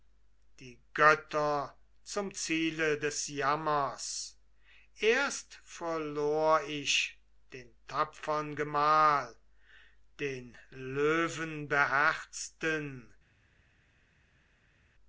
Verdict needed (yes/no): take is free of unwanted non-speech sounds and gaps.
yes